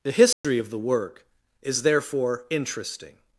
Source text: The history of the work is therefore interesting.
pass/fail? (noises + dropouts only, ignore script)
fail